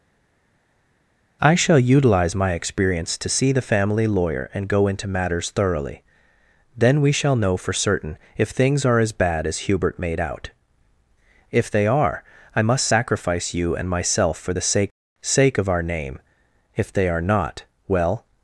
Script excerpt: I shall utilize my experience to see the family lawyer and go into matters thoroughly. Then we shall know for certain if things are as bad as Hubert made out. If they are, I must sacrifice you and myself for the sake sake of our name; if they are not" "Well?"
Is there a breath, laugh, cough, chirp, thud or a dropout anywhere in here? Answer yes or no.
no